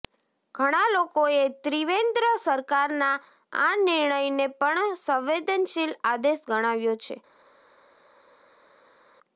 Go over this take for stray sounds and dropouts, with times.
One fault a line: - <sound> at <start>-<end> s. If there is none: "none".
none